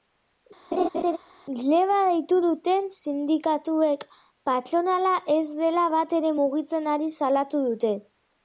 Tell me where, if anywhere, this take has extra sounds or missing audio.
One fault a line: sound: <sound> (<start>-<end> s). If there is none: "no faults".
sound: laugh (0.7-1.2 s)